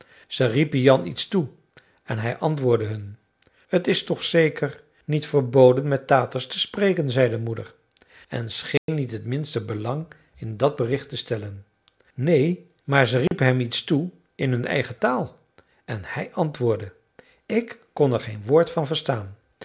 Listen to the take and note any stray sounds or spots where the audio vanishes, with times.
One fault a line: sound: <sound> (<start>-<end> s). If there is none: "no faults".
sound: dropout (8.8-8.9 s)
sound: dropout (13.3-13.3 s)